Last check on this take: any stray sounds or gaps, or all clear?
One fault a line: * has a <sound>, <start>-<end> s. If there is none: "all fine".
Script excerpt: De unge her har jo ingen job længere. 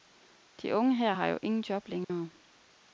* has a dropout, 2.0-2.1 s